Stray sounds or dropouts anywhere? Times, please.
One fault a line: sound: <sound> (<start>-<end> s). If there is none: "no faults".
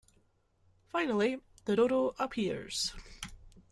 no faults